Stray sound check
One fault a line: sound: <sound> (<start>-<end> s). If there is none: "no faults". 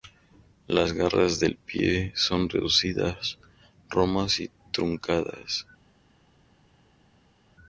no faults